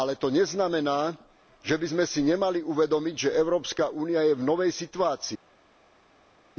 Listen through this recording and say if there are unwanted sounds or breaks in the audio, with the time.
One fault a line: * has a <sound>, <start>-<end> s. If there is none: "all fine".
all fine